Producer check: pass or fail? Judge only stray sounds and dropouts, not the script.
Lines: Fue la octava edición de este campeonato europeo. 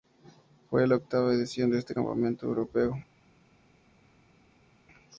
pass